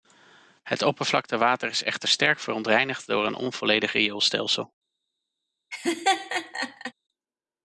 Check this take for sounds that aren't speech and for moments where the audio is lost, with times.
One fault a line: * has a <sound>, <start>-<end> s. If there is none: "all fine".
* has a laugh, 5.7-6.9 s